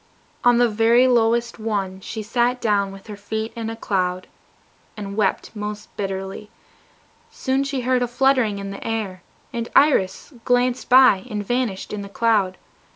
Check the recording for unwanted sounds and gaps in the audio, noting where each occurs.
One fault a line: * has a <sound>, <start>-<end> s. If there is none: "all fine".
all fine